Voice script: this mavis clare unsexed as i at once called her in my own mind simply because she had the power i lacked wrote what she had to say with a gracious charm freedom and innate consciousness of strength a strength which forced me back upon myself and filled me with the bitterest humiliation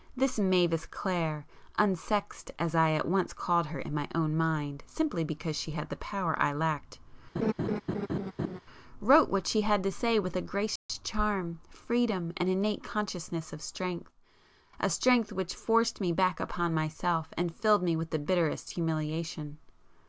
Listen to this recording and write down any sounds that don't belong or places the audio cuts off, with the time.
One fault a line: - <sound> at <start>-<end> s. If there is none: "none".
- laugh at 7.4-8.6 s
- dropout at 10.8-10.9 s